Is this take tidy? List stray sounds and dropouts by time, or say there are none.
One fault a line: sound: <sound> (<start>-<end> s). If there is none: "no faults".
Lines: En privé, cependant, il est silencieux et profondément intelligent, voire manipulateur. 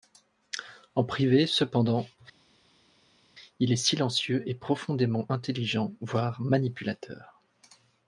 no faults